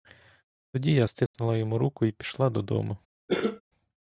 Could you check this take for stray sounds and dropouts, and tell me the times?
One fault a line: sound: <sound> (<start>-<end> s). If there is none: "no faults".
sound: dropout (1.3-1.3 s)
sound: cough (3.3-3.6 s)